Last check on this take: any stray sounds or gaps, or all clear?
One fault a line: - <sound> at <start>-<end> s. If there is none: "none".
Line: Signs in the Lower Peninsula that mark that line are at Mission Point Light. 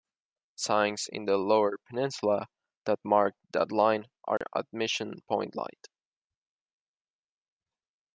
- dropout at 4.4-4.4 s